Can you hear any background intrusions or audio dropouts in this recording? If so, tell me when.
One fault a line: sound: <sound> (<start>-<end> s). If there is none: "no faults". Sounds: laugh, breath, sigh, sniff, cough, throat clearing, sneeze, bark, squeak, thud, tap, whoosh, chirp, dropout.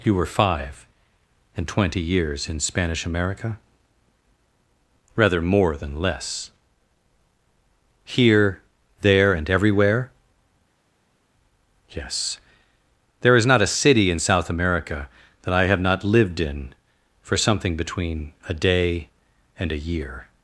no faults